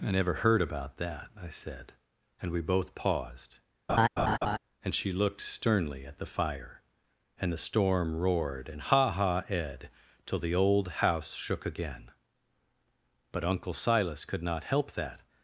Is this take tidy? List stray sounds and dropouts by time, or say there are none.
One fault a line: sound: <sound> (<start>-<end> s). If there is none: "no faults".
sound: laugh (3.9-4.6 s)